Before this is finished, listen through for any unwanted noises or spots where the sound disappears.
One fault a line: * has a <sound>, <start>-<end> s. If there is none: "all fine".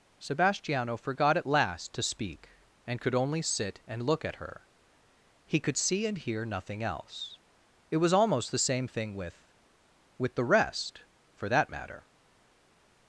all fine